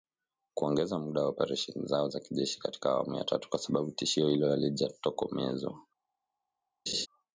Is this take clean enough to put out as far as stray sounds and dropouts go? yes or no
no